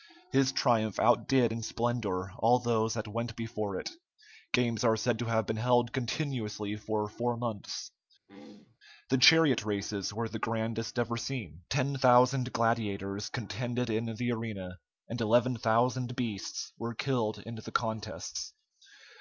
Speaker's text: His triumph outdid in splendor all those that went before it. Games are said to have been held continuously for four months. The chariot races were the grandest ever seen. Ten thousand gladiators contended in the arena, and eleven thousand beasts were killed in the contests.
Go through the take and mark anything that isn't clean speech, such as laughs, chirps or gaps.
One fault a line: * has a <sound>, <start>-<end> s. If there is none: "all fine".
* has a throat clearing, 8.3-8.8 s